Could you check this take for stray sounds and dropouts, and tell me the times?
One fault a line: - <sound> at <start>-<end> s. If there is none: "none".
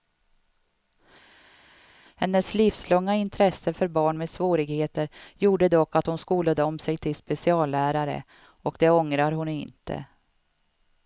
none